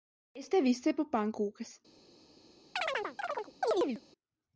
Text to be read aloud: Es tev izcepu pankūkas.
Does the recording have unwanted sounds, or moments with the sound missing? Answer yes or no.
yes